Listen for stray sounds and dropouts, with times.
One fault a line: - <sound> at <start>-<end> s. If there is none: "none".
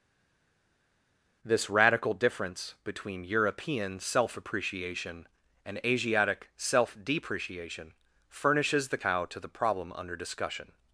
none